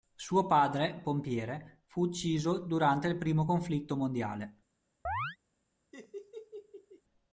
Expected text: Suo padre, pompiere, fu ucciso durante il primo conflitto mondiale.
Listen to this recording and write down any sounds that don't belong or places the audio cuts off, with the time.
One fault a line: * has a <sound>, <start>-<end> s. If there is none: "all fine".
* has a chirp, 5.0-5.4 s
* has a laugh, 5.9-7.0 s